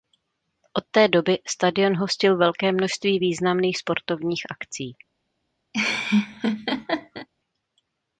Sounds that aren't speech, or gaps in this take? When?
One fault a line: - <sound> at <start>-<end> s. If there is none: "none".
- laugh at 5.7-7.3 s